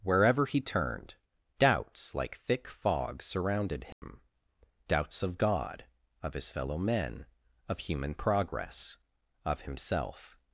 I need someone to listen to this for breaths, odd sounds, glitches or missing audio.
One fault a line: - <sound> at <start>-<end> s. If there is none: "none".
- dropout at 3.9-4.0 s